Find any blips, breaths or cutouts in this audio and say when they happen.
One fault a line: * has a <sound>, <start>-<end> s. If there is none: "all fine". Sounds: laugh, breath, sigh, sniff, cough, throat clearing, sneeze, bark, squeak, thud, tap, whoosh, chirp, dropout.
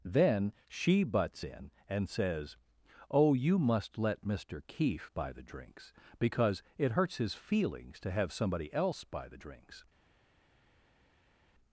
all fine